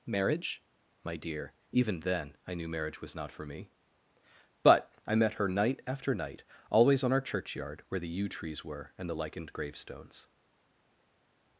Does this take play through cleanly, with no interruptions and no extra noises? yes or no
yes